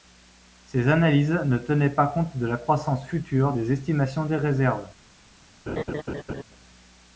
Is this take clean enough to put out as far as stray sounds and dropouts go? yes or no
no